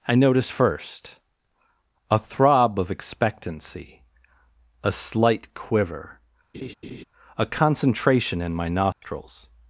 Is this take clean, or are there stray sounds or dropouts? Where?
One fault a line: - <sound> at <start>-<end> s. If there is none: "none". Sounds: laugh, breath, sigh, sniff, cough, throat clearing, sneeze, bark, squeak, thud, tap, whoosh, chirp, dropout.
- laugh at 6.5-7.0 s
- dropout at 8.9-9.0 s